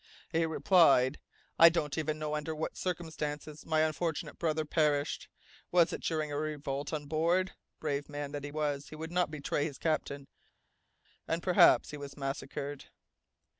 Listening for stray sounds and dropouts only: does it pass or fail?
pass